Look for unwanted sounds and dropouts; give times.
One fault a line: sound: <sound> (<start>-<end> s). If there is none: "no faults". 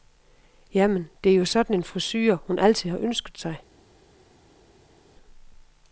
no faults